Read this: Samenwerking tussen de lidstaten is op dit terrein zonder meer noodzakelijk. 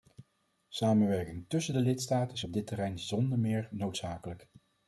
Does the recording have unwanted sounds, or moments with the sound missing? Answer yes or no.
no